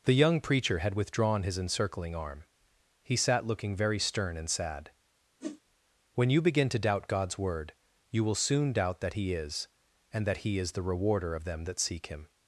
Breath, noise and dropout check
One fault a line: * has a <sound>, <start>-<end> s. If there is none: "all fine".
* has a whoosh, 5.4-5.6 s